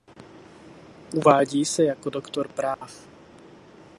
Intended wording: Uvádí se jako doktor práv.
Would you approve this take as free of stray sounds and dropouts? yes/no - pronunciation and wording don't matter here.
no